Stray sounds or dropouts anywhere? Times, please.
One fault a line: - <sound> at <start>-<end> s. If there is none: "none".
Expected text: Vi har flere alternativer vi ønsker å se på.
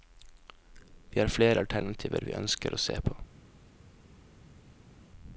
none